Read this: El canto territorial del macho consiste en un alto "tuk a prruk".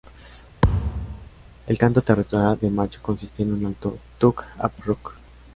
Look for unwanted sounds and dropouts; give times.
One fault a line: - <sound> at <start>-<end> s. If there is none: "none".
- thud at 0.6-1.3 s